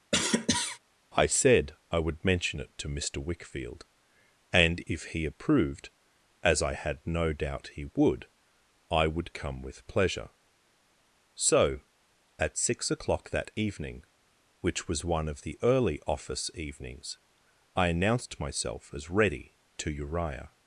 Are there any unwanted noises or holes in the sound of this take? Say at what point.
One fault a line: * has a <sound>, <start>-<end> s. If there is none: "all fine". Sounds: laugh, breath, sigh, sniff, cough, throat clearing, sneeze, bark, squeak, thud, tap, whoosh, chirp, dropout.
* has a cough, 0.1-0.8 s